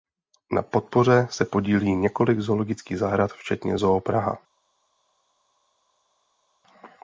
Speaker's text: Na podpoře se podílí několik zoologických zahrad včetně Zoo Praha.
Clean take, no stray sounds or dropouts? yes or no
yes